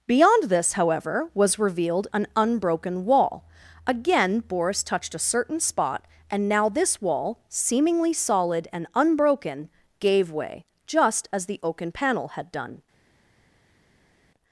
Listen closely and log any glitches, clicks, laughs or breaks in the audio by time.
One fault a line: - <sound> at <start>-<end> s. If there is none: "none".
none